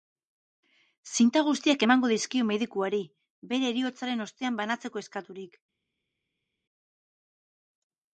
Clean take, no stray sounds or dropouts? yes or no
yes